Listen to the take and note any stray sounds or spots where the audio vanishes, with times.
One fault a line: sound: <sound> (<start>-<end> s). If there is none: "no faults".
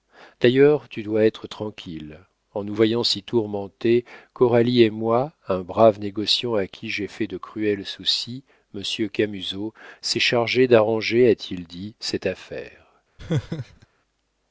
sound: laugh (13.2-13.9 s)